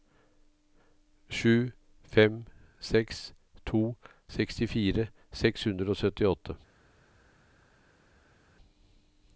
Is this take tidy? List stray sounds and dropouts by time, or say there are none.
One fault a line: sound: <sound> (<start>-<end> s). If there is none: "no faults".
no faults